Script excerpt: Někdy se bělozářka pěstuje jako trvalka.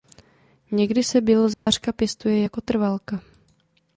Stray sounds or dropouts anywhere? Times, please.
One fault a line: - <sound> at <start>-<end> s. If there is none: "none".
- dropout at 1.5-1.7 s